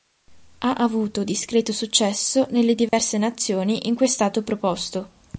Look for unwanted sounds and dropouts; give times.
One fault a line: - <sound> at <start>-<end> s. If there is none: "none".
- dropout at 2.9-2.9 s